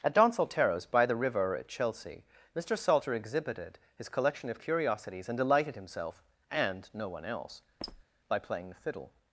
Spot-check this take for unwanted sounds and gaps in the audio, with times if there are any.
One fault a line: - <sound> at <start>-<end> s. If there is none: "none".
- squeak at 7.8-8.0 s